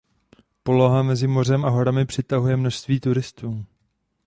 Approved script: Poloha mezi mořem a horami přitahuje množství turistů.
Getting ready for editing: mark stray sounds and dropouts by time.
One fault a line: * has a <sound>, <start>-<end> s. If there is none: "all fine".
all fine